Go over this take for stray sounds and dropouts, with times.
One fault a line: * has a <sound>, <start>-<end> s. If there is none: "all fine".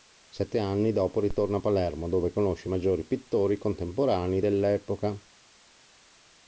all fine